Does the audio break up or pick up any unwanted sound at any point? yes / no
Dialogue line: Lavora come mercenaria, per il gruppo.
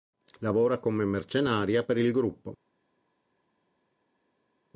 no